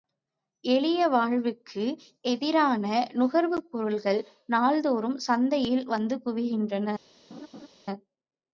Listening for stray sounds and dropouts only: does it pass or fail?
fail